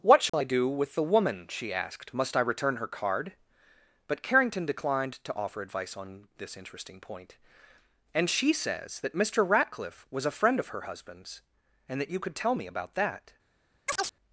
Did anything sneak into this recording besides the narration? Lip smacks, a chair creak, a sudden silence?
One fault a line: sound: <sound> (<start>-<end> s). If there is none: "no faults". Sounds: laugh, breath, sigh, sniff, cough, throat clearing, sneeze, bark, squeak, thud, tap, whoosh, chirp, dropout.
sound: dropout (0.3-0.3 s)
sound: chirp (13.9-14.2 s)